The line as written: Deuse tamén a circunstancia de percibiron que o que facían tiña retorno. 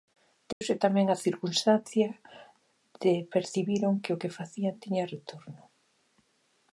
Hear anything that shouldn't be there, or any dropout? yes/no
yes